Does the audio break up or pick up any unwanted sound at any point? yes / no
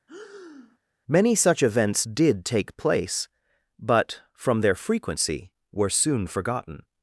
yes